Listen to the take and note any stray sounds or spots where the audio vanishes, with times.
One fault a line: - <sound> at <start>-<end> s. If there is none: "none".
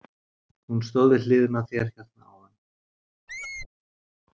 - squeak at 3.3-3.7 s